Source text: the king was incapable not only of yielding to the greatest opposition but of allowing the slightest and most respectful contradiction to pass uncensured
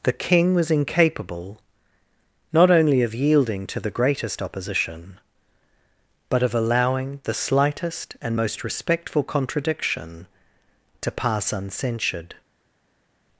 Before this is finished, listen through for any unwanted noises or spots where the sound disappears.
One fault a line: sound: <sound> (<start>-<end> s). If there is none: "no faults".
no faults